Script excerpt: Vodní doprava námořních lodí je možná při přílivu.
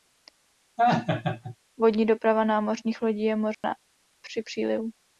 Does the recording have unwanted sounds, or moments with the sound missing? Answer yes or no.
yes